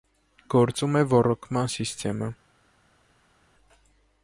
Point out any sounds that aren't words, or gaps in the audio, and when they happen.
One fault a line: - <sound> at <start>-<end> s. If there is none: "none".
none